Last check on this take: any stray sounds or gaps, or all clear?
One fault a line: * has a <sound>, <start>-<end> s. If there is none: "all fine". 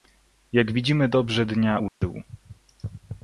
* has a dropout, 1.9-2.0 s